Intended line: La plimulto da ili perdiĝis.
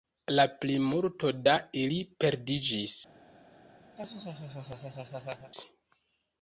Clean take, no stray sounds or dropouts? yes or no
no